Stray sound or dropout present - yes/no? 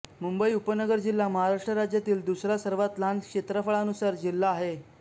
no